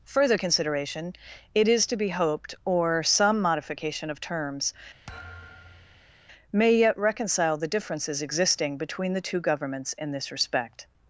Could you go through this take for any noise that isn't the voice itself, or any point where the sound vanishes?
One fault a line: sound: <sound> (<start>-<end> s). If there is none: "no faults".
sound: thud (5.1-6.2 s)